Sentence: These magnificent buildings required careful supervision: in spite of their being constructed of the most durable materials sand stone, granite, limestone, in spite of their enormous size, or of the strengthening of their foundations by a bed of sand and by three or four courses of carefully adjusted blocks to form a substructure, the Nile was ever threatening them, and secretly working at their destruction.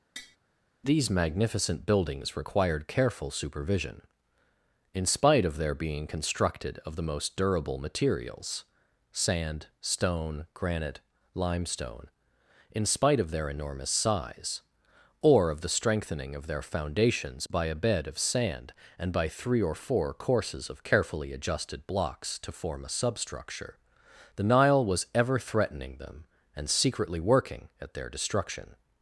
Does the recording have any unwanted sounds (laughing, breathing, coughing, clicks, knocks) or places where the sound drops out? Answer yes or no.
yes